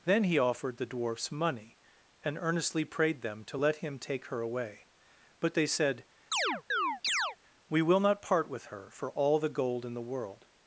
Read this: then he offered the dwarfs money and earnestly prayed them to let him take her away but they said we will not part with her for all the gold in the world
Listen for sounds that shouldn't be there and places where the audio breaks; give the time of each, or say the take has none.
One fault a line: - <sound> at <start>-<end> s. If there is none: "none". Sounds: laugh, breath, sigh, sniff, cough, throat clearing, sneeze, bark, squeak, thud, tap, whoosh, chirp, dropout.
- chirp at 6.3-7.4 s